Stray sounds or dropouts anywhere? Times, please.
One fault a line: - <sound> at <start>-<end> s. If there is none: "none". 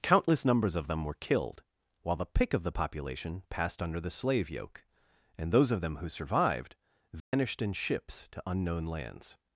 - dropout at 7.2-7.3 s